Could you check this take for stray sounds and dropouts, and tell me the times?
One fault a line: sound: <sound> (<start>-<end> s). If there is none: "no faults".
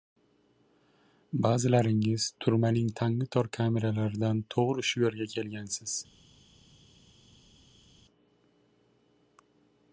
no faults